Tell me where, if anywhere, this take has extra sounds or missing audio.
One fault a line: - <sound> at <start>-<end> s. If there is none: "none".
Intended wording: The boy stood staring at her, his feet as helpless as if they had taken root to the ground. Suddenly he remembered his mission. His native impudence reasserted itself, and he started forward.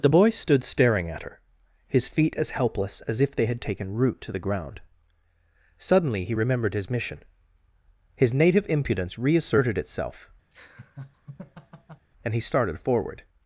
- laugh at 10.5-12.1 s